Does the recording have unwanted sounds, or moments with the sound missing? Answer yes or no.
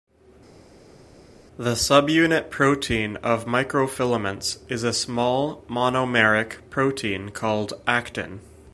no